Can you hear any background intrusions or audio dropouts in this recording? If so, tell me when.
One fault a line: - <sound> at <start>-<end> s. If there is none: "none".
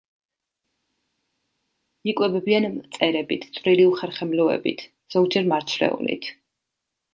none